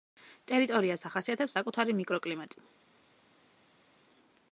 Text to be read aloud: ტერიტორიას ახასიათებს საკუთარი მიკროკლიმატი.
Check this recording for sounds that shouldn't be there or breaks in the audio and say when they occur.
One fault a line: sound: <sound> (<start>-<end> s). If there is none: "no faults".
no faults